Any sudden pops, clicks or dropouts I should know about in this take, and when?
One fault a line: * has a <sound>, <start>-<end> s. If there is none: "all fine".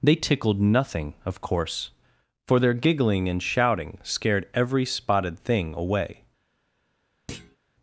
* has a thud, 7.3-7.6 s